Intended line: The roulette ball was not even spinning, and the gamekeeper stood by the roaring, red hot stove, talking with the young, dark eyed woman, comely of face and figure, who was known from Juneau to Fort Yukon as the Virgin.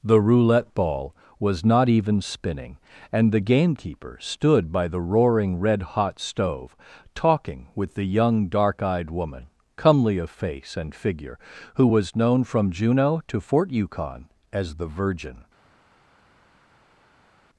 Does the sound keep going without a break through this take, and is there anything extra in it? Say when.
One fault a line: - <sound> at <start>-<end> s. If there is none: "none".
none